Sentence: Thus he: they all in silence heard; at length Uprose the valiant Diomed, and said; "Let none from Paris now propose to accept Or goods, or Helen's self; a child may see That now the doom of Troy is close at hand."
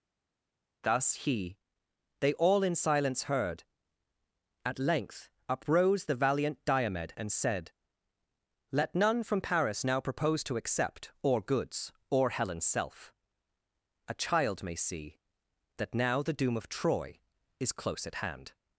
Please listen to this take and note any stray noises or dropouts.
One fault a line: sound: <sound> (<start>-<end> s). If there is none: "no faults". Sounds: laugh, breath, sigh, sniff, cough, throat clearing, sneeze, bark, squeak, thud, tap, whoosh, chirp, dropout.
no faults